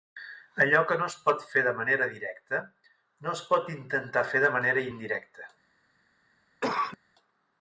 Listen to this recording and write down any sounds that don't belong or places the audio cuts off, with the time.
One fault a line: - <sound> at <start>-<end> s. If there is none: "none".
- cough at 6.6-7.0 s